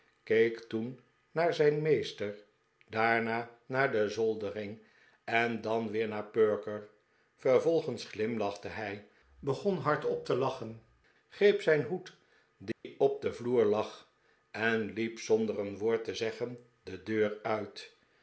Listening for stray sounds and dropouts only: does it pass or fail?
fail